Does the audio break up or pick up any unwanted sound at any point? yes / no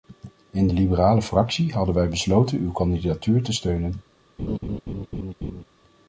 yes